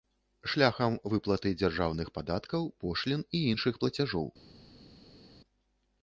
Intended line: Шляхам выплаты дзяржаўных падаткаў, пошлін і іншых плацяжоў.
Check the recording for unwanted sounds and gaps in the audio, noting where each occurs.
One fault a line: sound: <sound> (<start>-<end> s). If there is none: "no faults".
no faults